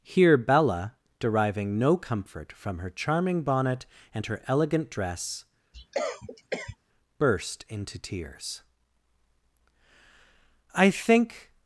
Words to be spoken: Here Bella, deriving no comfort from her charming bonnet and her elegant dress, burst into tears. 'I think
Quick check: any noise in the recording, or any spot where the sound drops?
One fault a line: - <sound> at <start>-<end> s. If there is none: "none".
- cough at 5.7-6.8 s